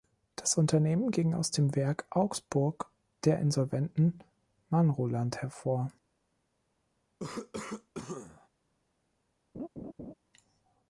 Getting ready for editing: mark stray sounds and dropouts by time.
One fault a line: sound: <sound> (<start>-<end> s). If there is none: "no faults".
sound: cough (7.2-8.5 s)
sound: laugh (9.5-10.1 s)